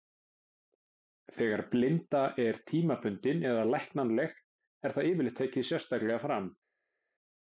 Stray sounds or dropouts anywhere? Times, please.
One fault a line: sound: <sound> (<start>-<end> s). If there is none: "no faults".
no faults